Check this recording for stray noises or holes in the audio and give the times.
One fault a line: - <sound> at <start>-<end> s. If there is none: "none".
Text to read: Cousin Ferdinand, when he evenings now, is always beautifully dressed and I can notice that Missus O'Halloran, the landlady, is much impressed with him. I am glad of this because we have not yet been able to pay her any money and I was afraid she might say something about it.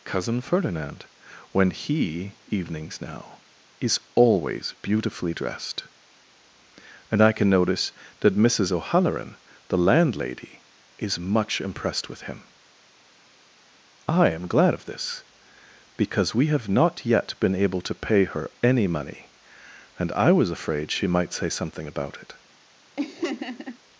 - laugh at 23.0-23.8 s